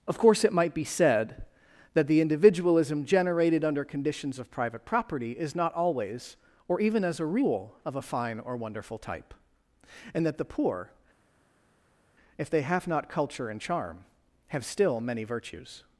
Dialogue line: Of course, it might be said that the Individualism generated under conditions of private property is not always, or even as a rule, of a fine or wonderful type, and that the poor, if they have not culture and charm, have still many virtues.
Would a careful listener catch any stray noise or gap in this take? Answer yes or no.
no